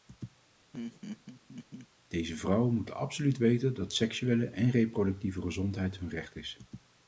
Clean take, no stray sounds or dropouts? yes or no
no